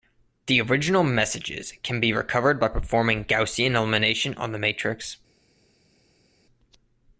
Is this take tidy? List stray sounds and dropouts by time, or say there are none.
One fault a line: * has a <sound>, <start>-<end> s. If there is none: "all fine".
all fine